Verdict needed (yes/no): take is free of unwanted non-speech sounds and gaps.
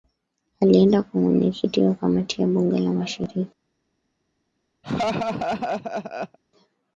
no